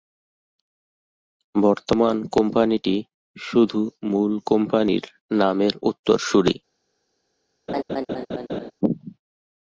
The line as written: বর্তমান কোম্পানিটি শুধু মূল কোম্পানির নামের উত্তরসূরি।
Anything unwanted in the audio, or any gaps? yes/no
yes